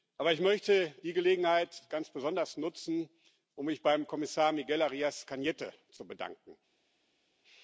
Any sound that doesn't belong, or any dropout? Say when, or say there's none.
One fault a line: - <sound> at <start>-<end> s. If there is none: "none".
none